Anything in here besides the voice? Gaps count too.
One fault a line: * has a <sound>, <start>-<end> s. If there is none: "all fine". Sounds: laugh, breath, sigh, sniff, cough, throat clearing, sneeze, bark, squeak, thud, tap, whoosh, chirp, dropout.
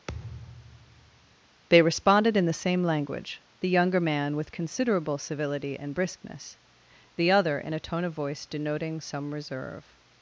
* has a thud, 0.1-1.4 s